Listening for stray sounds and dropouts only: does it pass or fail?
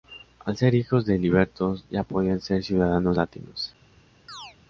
fail